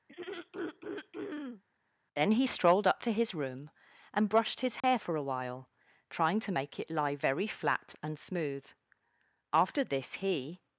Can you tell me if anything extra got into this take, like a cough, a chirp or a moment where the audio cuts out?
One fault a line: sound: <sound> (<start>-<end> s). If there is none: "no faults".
sound: throat clearing (0.1-1.6 s)
sound: dropout (4.8-4.8 s)